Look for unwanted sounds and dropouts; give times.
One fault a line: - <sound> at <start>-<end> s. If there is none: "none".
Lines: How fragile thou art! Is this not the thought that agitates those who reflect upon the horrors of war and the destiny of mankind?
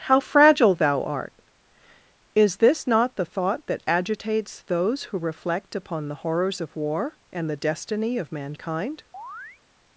- chirp at 9.1-9.6 s